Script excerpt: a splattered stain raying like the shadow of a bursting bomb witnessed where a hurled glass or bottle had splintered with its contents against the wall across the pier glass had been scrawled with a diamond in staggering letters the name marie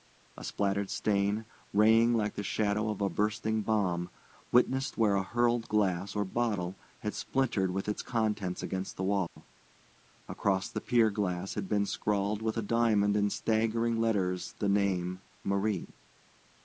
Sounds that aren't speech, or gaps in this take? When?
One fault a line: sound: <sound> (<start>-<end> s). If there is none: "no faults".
sound: dropout (9.3-9.4 s)